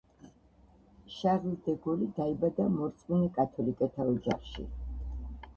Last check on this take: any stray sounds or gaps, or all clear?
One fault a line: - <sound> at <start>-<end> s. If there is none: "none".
none